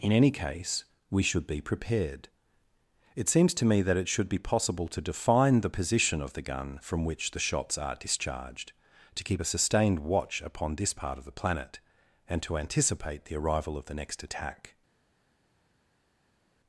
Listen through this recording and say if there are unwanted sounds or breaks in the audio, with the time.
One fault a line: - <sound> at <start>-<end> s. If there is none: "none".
none